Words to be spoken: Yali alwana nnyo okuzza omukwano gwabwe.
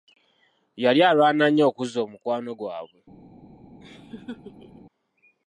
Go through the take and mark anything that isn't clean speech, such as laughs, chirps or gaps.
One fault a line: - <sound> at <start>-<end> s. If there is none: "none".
- laugh at 3.8-4.8 s